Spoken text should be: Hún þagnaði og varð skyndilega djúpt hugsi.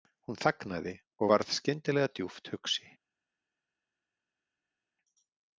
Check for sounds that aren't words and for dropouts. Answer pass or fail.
pass